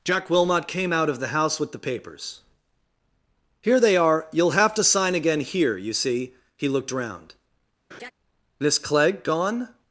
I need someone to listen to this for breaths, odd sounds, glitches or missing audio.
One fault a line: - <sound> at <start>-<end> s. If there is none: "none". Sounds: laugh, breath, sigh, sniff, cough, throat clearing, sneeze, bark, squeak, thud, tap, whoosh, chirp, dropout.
- laugh at 7.9-8.1 s